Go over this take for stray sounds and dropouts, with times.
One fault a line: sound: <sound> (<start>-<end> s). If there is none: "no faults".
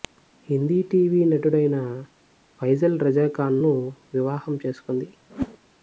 sound: whoosh (5.3-5.6 s)